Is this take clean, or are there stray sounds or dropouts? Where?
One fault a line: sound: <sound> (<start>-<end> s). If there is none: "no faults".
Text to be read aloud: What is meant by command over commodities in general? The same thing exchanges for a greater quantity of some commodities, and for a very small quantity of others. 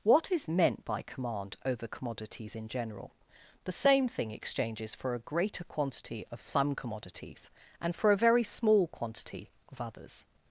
no faults